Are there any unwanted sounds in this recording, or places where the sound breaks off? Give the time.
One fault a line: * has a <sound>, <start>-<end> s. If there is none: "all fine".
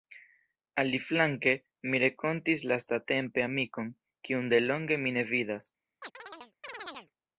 * has a chirp, 6.0-7.1 s